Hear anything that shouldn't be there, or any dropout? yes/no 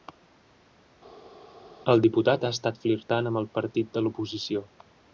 no